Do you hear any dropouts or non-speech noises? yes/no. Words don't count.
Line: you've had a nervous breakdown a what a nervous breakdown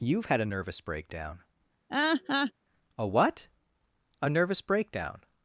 yes